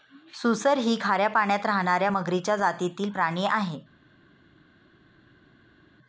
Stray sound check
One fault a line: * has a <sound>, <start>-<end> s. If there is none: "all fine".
all fine